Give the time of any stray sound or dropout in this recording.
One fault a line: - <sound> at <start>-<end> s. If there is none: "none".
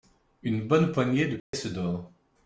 - dropout at 1.4-1.5 s